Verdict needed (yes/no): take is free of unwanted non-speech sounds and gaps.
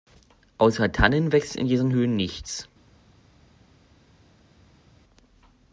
yes